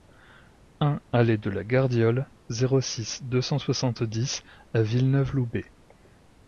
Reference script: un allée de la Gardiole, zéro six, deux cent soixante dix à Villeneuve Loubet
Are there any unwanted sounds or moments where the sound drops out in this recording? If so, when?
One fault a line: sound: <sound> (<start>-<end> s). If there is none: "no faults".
no faults